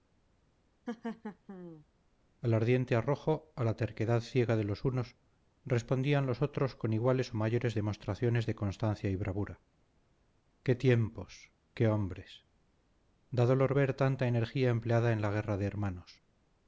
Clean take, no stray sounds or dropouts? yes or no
no